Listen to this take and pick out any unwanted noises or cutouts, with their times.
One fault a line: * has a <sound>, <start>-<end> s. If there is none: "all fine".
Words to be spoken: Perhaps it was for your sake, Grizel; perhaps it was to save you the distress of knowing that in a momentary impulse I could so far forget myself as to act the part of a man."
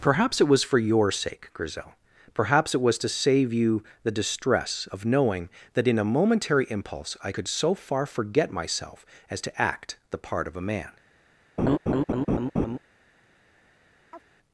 * has a laugh, 11.6-12.8 s
* has a chirp, 14.1-14.2 s